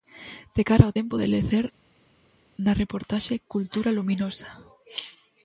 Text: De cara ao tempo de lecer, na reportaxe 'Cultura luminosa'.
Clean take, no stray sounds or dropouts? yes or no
yes